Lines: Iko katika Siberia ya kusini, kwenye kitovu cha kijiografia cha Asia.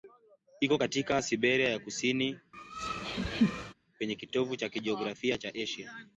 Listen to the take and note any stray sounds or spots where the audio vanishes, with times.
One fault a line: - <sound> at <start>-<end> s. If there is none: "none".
- laugh at 2.5-3.7 s